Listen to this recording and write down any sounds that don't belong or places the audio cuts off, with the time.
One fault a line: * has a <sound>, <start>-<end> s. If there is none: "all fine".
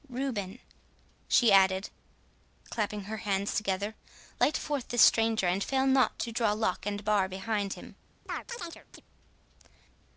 * has a chirp, 8.3-9.0 s